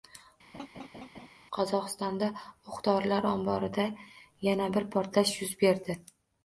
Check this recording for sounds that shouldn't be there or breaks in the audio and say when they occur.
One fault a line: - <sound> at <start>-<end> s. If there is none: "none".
- laugh at 0.5-1.3 s